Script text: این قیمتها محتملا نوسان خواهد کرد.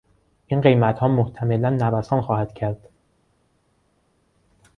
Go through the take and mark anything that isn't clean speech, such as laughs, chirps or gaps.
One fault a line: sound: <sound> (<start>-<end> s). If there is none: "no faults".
no faults